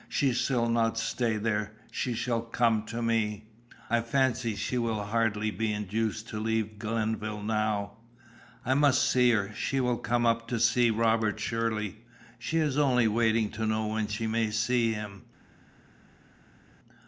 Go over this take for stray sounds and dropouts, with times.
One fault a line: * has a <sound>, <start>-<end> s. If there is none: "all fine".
all fine